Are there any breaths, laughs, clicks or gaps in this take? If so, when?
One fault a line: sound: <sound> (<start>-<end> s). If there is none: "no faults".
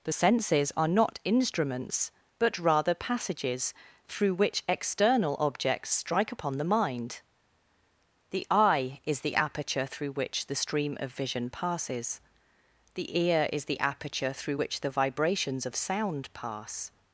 no faults